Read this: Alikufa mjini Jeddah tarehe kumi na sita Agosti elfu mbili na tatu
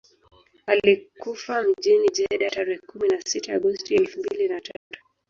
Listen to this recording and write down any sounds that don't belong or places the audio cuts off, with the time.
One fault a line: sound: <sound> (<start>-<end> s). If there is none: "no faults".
sound: dropout (4.8-4.9 s)